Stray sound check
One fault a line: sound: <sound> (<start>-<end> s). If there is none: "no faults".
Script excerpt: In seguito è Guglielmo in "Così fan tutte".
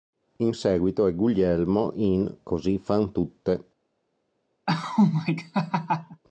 sound: laugh (4.7-6.2 s)